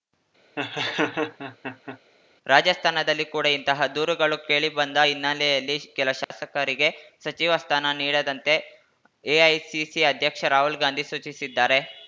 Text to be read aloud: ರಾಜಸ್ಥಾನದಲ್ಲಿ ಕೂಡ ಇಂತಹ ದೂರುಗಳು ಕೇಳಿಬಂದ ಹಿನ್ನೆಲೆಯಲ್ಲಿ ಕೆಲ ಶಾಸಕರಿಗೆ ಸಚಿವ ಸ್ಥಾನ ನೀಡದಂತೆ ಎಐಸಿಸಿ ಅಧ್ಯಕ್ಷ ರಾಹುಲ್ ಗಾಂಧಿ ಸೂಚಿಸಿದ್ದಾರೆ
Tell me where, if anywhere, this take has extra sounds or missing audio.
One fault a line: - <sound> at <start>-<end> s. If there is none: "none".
- laugh at 0.6-2.0 s
- dropout at 6.2-6.3 s